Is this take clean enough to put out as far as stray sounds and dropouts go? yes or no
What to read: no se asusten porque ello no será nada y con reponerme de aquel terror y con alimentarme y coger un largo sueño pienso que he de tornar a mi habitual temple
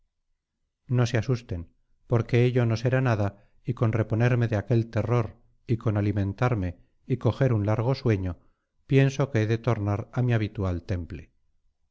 yes